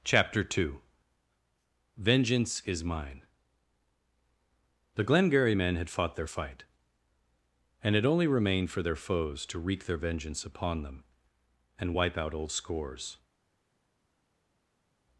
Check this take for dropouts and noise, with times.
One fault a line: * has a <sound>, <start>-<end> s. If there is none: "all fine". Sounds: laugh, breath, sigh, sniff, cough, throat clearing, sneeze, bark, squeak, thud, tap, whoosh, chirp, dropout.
all fine